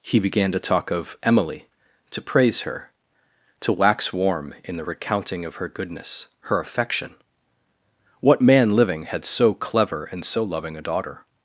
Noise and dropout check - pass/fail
pass